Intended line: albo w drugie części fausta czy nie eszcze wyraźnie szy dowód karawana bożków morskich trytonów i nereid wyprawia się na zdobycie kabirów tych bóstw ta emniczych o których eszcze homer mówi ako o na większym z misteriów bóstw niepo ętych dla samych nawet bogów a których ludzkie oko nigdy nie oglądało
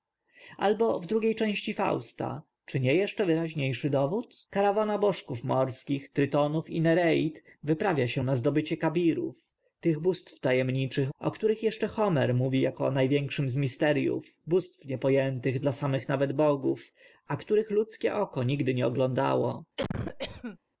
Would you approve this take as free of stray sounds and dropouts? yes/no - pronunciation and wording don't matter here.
no